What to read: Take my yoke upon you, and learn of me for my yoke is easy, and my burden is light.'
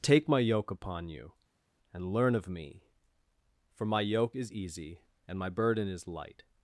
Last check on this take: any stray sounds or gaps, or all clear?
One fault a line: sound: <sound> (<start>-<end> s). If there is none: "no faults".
no faults